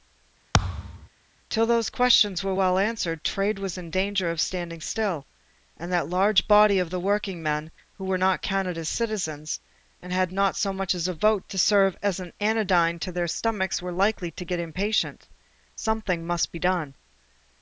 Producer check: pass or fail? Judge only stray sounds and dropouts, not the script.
fail